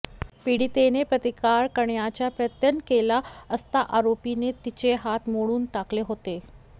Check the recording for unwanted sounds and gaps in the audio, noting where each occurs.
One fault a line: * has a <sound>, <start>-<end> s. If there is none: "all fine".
all fine